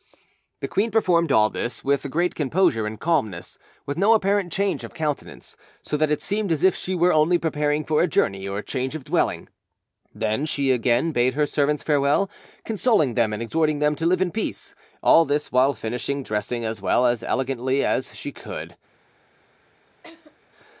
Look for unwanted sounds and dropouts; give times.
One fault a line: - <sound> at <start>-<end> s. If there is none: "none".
- laugh at 20.0-20.4 s